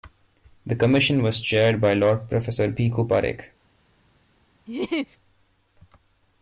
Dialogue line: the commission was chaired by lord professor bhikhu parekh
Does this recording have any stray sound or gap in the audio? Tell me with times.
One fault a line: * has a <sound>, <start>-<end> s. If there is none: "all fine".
* has a laugh, 4.7-5.2 s